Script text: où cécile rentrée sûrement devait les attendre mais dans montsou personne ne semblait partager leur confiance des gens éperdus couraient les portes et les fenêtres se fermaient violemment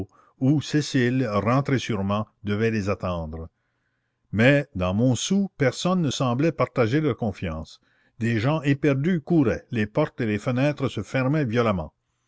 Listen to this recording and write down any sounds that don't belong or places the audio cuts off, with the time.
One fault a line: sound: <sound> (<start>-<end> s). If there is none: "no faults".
no faults